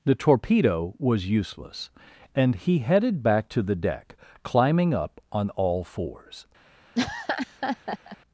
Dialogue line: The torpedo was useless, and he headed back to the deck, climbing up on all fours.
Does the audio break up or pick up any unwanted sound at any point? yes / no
yes